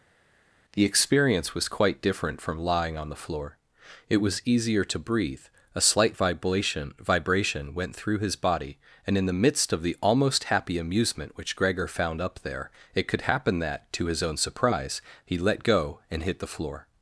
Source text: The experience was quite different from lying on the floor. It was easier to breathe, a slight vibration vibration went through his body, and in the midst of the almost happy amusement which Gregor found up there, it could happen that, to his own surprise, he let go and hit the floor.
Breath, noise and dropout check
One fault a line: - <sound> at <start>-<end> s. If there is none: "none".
none